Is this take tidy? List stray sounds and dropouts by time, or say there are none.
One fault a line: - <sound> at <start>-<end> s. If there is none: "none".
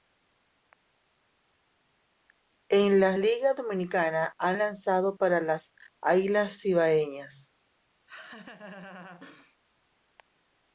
- laugh at 8.1-9.6 s